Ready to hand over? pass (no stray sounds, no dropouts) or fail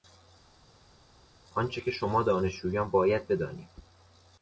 pass